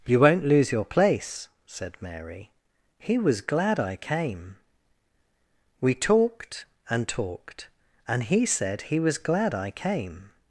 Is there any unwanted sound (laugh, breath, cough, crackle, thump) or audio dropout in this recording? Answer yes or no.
no